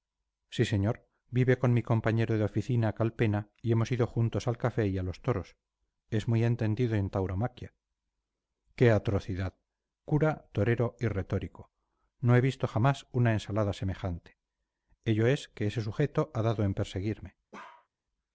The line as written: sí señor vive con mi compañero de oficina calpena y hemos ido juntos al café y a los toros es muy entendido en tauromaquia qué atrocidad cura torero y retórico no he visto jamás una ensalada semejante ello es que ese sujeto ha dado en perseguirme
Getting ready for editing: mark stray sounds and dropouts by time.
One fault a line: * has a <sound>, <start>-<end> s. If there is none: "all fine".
* has a bark, 17.5-17.9 s